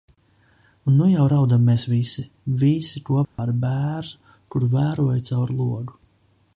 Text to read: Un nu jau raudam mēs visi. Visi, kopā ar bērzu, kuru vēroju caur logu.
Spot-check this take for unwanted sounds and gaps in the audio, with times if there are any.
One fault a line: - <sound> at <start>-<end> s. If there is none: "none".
- dropout at 3.2-3.4 s